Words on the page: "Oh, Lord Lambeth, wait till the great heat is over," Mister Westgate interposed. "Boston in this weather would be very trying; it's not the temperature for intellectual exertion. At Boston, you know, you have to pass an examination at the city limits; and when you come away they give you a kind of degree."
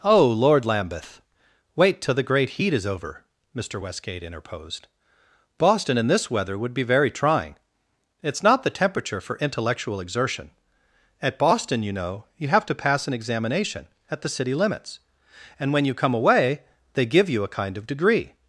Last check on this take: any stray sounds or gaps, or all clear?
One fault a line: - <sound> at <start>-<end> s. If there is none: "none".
none